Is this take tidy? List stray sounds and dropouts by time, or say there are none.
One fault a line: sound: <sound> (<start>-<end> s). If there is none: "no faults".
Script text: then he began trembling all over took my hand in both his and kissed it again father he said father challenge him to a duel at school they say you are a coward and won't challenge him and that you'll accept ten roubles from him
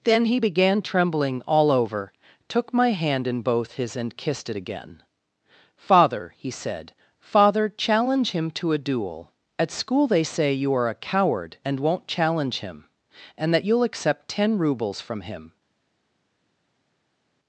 no faults